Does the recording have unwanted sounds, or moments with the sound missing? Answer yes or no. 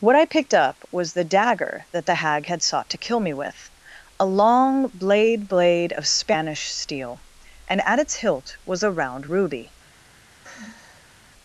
yes